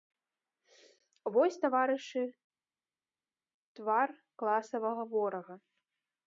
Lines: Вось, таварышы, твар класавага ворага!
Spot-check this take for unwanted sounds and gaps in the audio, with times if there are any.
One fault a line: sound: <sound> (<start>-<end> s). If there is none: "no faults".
no faults